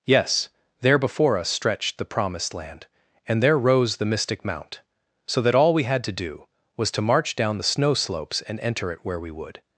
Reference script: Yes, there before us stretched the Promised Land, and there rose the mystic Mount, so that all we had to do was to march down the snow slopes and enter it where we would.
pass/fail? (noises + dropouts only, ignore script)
pass